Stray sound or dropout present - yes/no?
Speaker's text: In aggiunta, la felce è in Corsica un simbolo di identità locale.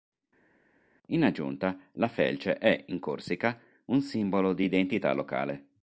no